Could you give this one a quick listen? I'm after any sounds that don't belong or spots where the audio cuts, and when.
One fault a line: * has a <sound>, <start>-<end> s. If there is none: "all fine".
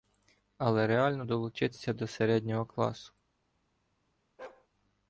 * has a bark, 4.4-4.7 s